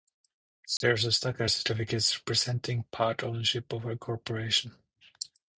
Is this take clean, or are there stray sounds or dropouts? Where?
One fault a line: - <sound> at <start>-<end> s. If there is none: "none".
- dropout at 0.8-0.8 s